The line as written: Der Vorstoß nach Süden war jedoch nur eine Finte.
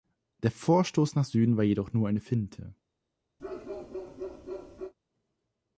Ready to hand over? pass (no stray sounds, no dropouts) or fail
fail